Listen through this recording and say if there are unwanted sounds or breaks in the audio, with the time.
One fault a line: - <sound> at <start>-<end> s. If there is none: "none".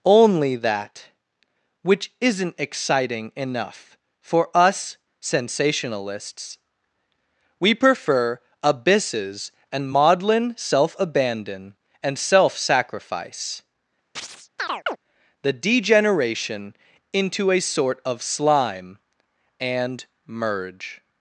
- chirp at 14.2-15.0 s